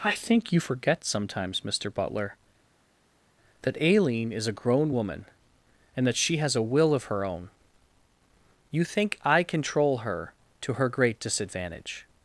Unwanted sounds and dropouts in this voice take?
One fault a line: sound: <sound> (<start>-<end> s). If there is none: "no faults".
no faults